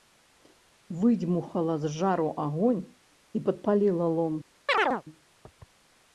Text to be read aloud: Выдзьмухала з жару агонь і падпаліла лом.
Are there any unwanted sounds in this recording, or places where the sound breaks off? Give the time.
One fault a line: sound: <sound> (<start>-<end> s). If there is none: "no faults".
sound: chirp (4.7-5.0 s)